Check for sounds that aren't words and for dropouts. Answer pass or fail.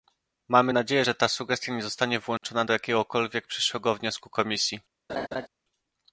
fail